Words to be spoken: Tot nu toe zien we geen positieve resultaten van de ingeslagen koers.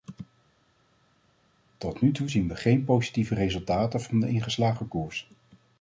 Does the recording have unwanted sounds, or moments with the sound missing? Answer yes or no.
no